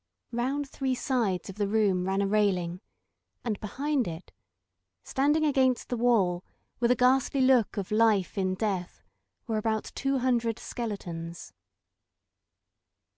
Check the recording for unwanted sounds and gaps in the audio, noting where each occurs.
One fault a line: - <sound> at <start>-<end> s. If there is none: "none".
none